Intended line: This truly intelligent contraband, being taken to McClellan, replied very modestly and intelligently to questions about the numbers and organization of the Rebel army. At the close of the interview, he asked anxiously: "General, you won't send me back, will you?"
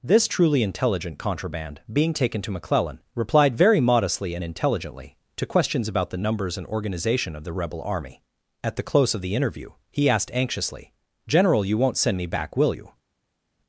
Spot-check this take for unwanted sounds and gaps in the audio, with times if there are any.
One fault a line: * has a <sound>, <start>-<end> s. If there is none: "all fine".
all fine